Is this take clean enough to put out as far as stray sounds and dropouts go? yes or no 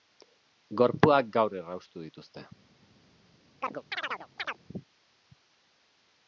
no